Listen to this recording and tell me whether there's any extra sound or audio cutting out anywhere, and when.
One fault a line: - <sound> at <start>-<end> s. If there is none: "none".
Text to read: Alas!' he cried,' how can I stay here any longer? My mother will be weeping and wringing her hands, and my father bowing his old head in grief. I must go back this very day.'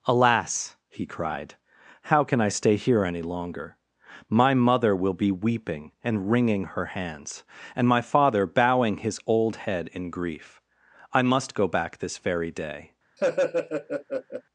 - laugh at 13.2-14.4 s